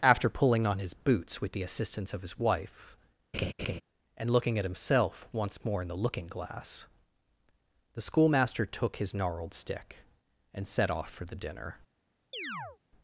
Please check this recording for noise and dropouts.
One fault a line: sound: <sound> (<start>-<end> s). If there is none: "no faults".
sound: laugh (3.3-3.8 s)
sound: chirp (12.3-12.8 s)